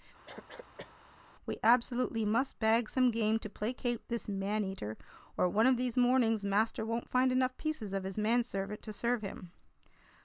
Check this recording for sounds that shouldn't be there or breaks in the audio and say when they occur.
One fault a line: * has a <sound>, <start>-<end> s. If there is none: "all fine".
* has a cough, 0.3-1.0 s